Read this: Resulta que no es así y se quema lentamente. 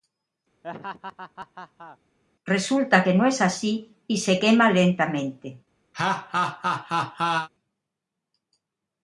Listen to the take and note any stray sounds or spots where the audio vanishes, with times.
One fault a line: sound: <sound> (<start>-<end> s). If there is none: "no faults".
sound: laugh (0.6-2.0 s)
sound: laugh (5.9-7.5 s)